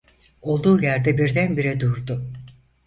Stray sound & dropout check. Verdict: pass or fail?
pass